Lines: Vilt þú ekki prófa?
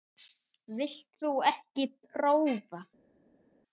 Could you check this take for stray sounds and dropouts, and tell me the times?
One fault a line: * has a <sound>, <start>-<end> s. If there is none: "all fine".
all fine